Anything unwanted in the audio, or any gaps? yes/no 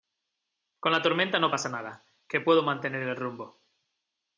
no